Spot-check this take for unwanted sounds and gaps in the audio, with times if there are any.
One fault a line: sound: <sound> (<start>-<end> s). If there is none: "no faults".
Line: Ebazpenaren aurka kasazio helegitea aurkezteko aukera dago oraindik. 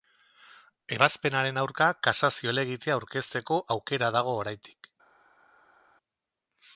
no faults